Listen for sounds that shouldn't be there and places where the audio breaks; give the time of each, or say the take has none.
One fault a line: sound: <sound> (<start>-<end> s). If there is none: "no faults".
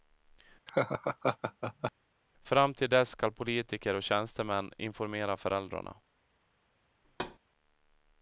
sound: laugh (0.7-1.9 s)
sound: thud (7.0-7.4 s)